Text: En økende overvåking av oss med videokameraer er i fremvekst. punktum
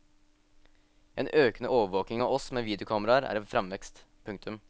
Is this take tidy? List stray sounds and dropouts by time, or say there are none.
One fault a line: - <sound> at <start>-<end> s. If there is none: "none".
none